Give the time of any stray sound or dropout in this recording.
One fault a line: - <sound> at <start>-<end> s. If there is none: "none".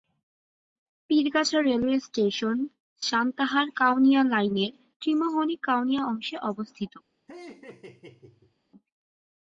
- laugh at 7.3-8.5 s